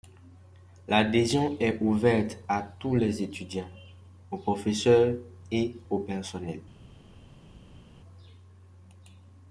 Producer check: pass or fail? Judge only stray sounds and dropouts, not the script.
pass